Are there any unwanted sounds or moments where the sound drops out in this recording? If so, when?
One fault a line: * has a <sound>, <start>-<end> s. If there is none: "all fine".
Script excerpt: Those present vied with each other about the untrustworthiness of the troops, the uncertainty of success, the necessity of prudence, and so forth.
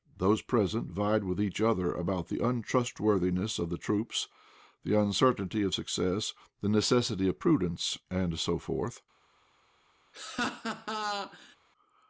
* has a laugh, 10.1-11.6 s